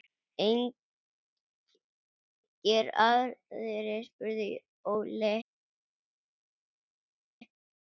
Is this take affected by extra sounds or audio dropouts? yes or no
no